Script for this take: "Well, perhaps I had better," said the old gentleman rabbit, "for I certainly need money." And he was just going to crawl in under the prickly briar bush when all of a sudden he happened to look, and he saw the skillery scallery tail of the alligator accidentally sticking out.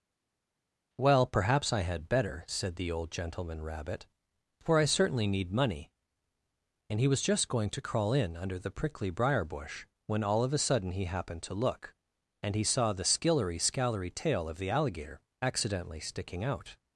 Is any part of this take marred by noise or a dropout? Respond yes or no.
no